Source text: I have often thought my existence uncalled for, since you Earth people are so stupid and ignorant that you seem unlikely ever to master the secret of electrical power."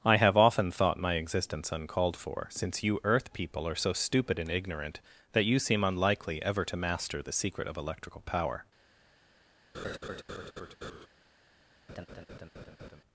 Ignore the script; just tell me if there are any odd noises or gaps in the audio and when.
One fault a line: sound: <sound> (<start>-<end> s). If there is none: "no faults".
sound: laugh (9.7-11.1 s)
sound: laugh (11.9-13.0 s)